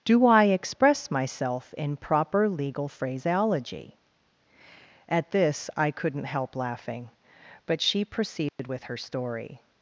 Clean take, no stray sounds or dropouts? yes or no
no